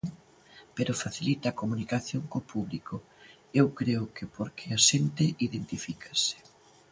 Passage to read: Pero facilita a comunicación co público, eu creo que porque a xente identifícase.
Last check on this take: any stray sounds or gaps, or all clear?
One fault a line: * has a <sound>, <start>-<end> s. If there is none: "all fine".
all fine